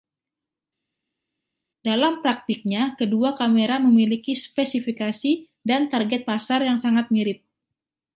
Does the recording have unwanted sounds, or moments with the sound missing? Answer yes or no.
no